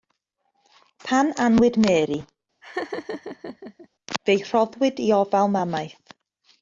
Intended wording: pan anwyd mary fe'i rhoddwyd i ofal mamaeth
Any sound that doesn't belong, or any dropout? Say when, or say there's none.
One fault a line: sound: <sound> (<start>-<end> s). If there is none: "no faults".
sound: laugh (2.6-3.9 s)